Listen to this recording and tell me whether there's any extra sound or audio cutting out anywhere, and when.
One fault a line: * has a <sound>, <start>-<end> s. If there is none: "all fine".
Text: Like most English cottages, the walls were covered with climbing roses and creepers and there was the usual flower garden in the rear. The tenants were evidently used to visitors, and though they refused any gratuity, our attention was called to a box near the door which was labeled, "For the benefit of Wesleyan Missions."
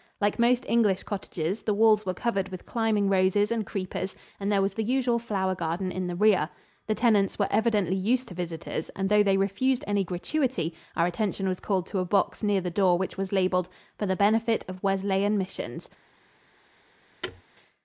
* has a thud, 17.2-17.4 s